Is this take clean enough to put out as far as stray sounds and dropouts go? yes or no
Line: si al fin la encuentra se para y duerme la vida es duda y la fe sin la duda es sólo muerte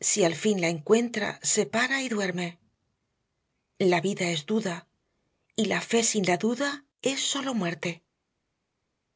yes